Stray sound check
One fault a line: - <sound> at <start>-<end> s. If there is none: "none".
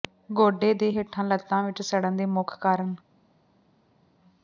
none